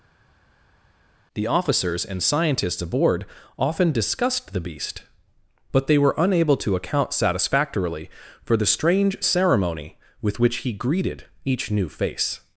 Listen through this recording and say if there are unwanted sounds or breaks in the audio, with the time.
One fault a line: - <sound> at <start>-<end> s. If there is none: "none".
none